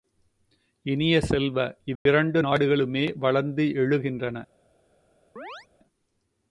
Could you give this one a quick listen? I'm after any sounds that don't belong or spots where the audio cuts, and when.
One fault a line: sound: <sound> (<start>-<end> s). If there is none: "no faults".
sound: dropout (2.0-2.1 s)
sound: chirp (5.4-5.7 s)